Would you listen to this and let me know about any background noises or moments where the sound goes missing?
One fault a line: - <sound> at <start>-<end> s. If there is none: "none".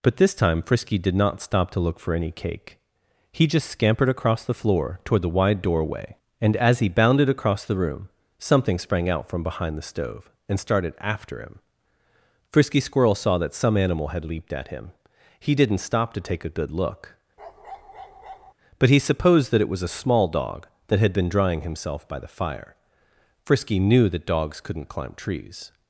- bark at 17.4-18.5 s